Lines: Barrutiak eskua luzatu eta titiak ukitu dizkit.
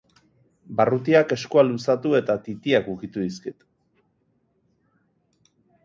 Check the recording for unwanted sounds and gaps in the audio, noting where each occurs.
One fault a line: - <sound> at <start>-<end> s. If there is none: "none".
none